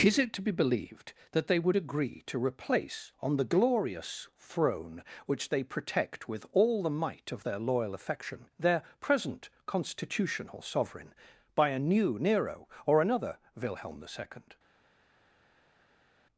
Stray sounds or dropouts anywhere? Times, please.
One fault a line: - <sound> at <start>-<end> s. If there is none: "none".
none